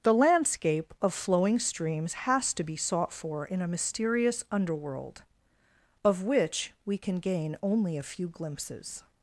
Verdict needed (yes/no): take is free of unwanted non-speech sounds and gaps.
yes